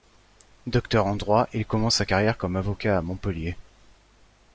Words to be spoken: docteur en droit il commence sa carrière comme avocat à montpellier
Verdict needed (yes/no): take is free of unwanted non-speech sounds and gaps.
yes